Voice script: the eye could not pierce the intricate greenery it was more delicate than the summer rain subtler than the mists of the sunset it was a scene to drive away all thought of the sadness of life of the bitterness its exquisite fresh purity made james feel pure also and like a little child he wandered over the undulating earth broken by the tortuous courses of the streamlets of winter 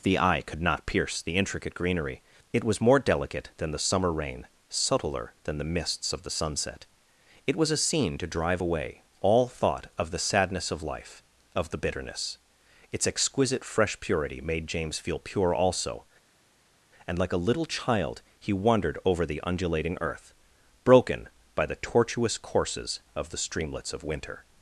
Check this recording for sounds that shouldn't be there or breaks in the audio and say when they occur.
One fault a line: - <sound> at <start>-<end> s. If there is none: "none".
none